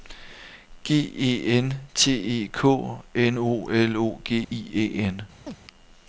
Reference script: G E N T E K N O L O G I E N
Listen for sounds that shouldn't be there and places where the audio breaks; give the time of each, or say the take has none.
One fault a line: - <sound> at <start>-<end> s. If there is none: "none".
- dropout at 4.4-4.5 s
- chirp at 5.5-5.6 s